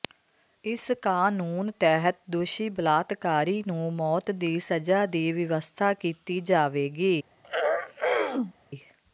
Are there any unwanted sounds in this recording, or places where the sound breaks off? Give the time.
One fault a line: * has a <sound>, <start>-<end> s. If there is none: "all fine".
* has a throat clearing, 7.4-8.5 s